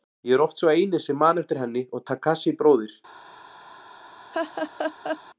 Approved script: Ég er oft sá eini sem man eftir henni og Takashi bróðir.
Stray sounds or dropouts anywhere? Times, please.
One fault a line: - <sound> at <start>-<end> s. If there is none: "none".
- laugh at 4.3-5.2 s